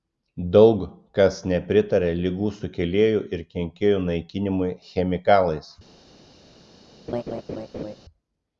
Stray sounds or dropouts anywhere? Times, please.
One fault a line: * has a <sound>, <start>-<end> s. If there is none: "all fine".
* has a laugh, 7.1-8.0 s